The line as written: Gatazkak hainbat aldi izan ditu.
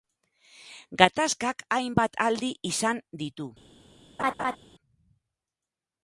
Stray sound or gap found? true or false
true